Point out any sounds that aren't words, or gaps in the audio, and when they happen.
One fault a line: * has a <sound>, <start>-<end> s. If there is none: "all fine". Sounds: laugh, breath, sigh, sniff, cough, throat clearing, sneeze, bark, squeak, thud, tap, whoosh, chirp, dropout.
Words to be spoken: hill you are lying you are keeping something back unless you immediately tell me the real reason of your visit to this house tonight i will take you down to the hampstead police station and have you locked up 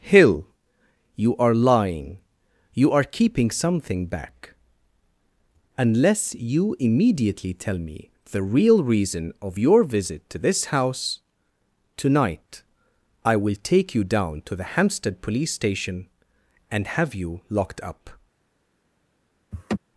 * has a laugh, 19.5-19.8 s